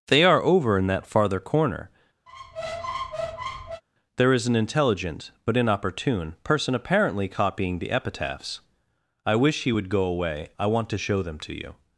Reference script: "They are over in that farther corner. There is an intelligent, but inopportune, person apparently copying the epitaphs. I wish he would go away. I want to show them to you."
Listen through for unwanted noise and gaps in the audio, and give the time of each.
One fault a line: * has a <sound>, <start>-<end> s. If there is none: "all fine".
* has a squeak, 2.3-3.8 s